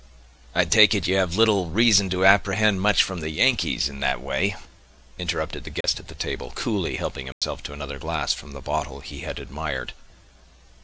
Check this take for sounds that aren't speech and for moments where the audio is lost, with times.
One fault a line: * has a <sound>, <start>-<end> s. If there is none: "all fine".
* has a dropout, 5.8-5.8 s
* has a dropout, 7.3-7.4 s